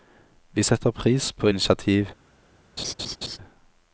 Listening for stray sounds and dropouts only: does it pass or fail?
fail